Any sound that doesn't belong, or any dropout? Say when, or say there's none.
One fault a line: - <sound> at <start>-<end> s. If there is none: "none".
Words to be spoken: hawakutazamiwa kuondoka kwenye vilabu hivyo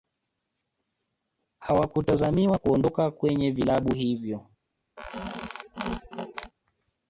- squeak at 5.0-6.5 s